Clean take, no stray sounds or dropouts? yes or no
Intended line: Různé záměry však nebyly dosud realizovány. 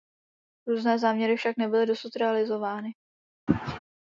no